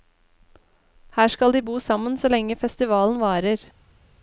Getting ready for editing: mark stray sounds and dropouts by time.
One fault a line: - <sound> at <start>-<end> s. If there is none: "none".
none